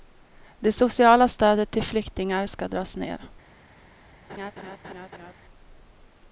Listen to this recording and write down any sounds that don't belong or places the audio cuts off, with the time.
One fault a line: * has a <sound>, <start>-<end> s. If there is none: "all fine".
* has a laugh, 4.3-5.3 s